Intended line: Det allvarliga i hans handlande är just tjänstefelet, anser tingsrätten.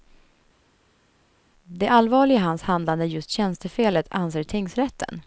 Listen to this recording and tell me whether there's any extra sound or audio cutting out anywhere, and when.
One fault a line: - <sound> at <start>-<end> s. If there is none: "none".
none